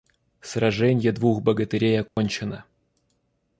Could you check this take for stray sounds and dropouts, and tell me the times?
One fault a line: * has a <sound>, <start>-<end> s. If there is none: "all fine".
* has a dropout, 2.1-2.2 s